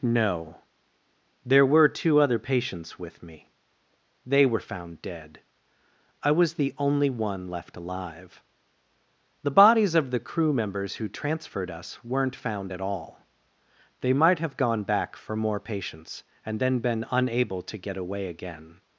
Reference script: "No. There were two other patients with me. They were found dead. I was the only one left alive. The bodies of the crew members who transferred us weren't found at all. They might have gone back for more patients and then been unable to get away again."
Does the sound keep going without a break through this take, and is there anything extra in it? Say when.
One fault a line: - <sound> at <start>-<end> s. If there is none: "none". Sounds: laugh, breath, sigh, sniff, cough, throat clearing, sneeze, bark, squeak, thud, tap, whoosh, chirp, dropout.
none